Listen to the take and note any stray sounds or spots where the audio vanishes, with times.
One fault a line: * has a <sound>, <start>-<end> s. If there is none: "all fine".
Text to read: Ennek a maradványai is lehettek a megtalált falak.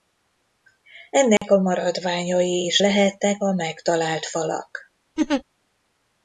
* has a dropout, 1.4-1.4 s
* has a laugh, 5.2-5.4 s